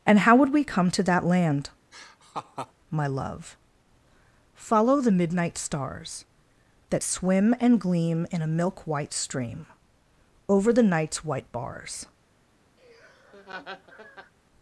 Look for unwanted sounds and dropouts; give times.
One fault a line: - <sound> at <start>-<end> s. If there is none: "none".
- laugh at 1.9-2.7 s
- laugh at 12.8-14.3 s